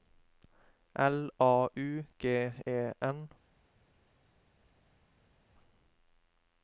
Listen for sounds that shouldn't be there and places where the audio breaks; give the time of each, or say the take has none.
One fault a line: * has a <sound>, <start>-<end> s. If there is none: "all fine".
all fine